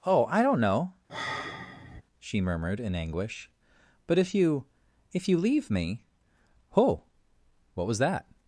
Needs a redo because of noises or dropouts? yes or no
yes